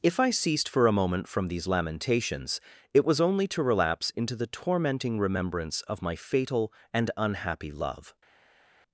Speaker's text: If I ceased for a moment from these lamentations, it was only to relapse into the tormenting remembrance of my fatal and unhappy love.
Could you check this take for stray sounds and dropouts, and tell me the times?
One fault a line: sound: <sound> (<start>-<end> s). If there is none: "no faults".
no faults